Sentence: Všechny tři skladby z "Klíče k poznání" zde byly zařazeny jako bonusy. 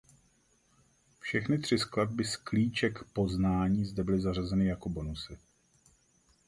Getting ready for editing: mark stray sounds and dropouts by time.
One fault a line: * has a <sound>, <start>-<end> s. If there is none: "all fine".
all fine